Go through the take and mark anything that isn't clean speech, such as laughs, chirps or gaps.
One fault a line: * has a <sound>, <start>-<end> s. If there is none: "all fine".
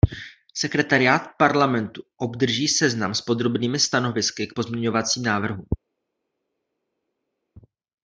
all fine